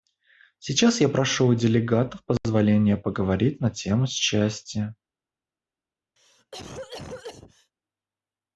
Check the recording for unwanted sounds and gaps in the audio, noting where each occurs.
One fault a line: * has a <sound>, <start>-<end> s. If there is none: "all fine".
* has a cough, 6.2-7.7 s